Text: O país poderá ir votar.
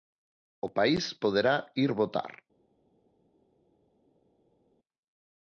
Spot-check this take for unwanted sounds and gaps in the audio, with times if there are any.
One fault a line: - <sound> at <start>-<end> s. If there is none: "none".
none